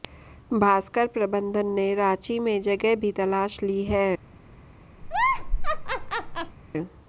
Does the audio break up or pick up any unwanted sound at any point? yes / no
yes